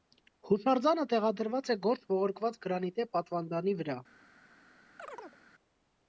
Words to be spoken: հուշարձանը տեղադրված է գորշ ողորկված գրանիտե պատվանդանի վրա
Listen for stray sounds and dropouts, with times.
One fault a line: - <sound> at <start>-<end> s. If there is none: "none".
- chirp at 5.0-5.4 s